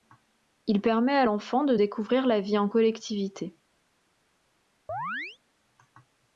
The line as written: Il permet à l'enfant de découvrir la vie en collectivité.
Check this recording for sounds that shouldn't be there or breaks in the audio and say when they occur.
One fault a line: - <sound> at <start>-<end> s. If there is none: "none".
- chirp at 4.9-5.4 s